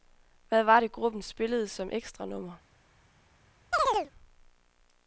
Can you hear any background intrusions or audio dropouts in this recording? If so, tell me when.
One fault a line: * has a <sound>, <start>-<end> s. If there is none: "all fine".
* has a chirp, 3.7-4.1 s